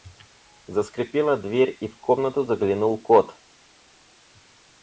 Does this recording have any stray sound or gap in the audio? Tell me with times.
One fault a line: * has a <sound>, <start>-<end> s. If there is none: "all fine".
all fine